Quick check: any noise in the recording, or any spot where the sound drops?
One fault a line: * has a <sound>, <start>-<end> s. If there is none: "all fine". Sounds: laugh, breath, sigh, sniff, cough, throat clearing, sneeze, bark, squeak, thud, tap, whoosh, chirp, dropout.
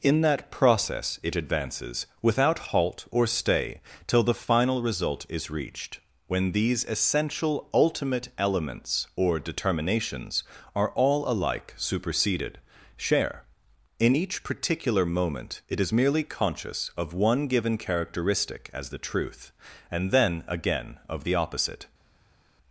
all fine